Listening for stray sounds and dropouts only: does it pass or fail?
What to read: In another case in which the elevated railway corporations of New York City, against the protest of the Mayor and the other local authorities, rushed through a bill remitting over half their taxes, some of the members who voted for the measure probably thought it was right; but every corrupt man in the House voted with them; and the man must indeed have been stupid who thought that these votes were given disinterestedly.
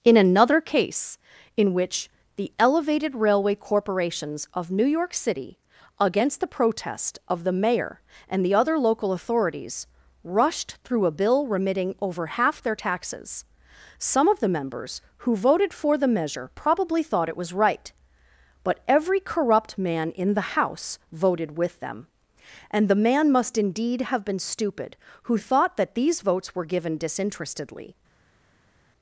pass